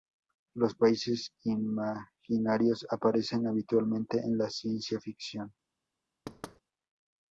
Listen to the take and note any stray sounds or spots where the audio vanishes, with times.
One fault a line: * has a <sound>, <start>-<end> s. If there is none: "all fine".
* has a thud, 6.3-6.6 s